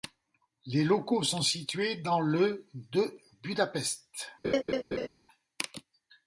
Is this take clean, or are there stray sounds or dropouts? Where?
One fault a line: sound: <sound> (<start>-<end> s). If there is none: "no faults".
sound: laugh (4.4-5.1 s)